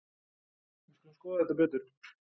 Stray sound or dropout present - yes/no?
no